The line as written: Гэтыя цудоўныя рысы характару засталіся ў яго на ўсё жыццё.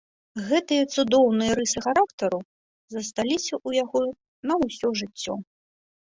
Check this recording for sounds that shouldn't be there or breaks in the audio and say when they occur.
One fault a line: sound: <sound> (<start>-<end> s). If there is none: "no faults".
no faults